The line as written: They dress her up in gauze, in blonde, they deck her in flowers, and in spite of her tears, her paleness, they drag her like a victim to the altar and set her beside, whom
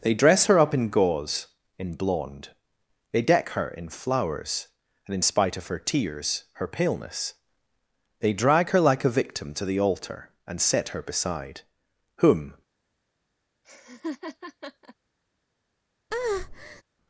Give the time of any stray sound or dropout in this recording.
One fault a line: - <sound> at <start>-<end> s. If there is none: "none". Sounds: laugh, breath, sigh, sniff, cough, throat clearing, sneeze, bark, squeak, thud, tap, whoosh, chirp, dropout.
- laugh at 13.6-15.0 s
- breath at 16.1-16.8 s